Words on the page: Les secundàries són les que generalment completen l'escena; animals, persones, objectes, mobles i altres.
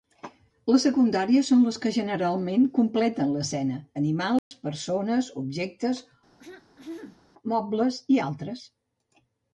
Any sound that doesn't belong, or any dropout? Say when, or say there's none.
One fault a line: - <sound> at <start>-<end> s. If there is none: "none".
- dropout at 4.4-4.5 s
- throat clearing at 6.4-7.2 s